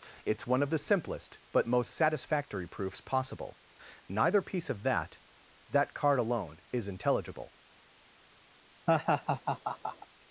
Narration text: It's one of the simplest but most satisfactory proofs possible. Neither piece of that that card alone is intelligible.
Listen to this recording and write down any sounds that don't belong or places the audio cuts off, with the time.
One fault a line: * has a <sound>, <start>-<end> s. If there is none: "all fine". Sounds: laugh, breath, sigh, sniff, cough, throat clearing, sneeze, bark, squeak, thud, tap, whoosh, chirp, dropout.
* has a laugh, 8.9-10.1 s